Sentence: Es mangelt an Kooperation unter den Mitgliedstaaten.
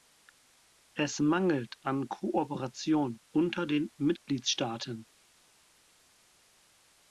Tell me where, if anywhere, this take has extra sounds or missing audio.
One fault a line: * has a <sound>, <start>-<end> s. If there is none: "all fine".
all fine